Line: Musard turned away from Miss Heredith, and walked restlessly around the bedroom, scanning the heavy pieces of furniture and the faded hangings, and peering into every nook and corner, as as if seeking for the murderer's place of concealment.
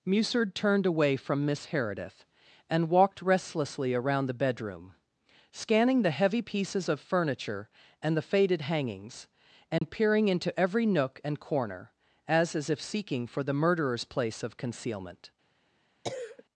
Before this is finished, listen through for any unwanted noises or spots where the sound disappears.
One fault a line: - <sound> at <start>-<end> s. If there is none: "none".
- dropout at 9.8-9.8 s
- cough at 16.0-16.4 s